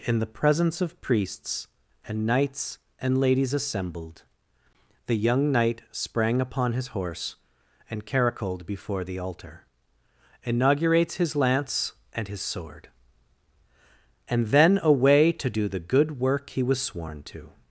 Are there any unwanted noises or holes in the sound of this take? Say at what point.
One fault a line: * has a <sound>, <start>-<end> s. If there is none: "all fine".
all fine